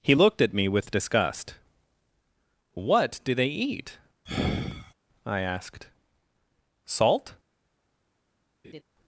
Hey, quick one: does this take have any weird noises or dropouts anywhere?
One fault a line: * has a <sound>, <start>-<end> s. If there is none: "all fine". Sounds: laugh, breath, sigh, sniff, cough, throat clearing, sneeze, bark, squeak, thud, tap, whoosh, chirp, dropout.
* has a sigh, 4.3-4.9 s
* has a laugh, 8.6-8.8 s